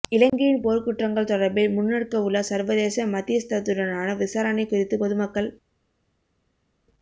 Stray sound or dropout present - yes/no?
no